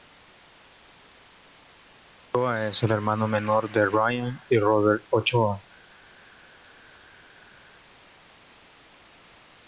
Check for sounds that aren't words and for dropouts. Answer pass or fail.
pass